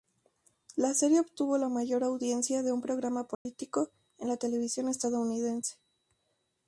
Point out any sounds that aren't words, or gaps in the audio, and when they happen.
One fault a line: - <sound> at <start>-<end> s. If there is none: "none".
- dropout at 3.3-3.5 s